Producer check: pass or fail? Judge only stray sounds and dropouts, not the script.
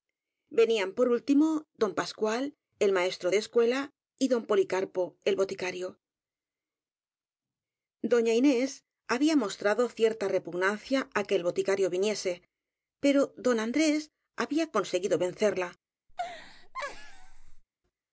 fail